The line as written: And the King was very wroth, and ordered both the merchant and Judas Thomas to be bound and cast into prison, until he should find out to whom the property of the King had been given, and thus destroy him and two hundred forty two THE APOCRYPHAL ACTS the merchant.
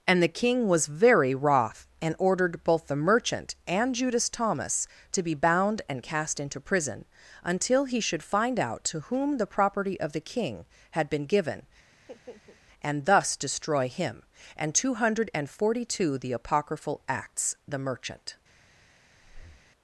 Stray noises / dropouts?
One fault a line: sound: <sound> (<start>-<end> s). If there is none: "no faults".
sound: laugh (11.9-12.6 s)
sound: breath (19.2-19.7 s)